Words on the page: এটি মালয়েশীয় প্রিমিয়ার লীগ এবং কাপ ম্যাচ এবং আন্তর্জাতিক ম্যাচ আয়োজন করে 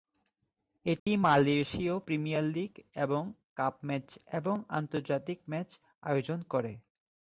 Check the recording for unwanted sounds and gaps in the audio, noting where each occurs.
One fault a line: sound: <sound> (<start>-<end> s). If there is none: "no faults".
sound: dropout (1.0-1.1 s)